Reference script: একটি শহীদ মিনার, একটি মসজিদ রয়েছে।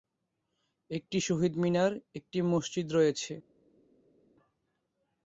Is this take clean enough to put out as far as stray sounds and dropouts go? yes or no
yes